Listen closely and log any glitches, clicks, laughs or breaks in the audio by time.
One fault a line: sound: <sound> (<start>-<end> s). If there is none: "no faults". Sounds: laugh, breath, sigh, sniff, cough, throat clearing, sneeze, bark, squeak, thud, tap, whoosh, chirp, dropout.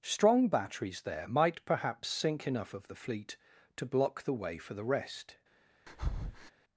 sound: breath (5.9-6.5 s)